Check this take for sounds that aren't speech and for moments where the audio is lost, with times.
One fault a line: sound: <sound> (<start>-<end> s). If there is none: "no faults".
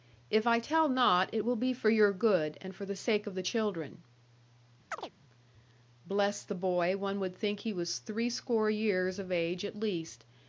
sound: chirp (4.9-5.1 s)